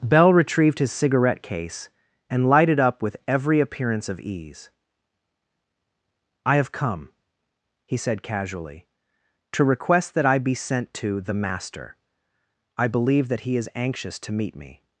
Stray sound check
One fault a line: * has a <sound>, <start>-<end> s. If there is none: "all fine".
all fine